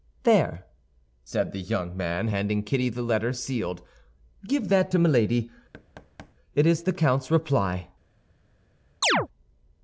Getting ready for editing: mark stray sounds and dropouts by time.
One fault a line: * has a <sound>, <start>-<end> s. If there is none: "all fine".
* has a thud, 5.7-6.3 s
* has a chirp, 9.0-9.3 s